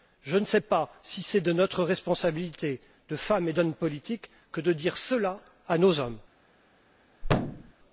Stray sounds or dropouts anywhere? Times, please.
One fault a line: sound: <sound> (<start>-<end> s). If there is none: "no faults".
sound: thud (7.2-7.7 s)